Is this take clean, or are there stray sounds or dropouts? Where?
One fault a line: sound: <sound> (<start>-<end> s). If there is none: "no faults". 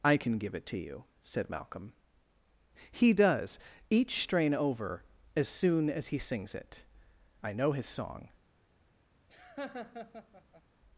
sound: laugh (9.3-10.6 s)